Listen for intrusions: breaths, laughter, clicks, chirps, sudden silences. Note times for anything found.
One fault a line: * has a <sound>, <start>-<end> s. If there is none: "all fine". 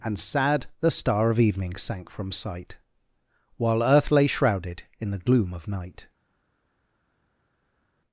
all fine